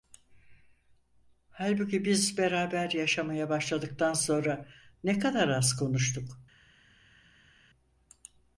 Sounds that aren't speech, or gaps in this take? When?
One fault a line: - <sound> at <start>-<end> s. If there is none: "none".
none